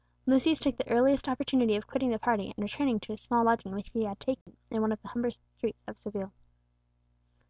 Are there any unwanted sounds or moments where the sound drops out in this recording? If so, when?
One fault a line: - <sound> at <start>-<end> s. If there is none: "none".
- dropout at 4.4-4.5 s